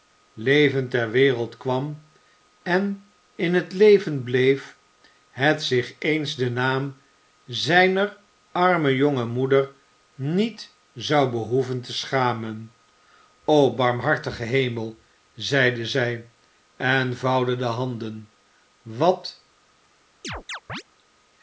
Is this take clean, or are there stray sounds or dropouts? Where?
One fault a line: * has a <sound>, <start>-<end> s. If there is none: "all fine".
* has a chirp, 20.2-20.8 s